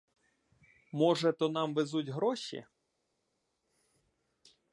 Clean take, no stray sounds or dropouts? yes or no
yes